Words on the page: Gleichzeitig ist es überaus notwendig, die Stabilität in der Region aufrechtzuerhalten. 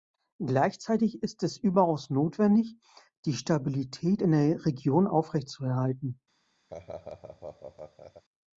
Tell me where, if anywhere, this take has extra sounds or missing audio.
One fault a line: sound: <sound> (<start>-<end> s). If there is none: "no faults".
sound: laugh (6.7-8.2 s)